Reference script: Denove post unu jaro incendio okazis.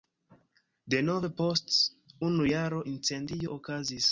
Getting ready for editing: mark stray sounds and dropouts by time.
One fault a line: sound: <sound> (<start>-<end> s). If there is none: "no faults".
no faults